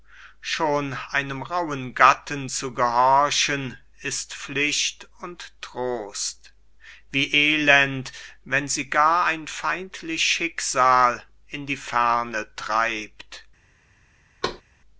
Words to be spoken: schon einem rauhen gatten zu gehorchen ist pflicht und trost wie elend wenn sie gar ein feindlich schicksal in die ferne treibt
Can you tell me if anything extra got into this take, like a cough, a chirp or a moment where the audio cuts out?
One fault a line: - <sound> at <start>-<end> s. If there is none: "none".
- thud at 14.4-14.6 s